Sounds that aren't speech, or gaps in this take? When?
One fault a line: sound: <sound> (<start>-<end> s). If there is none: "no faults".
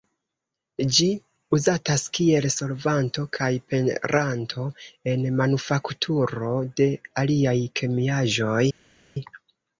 no faults